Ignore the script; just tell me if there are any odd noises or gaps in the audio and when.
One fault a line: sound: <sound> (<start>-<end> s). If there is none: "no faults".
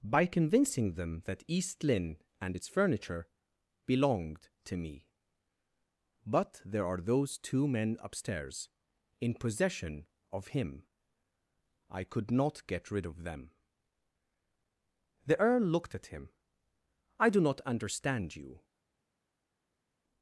no faults